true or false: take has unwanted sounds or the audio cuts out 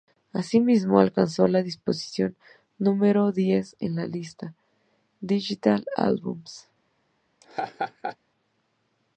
true